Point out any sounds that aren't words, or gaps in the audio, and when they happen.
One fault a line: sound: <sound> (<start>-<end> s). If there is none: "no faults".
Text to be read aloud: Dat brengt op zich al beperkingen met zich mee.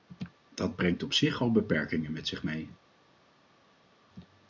no faults